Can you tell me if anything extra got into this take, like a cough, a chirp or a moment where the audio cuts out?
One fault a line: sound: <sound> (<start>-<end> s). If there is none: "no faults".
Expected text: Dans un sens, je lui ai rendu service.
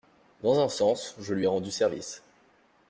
no faults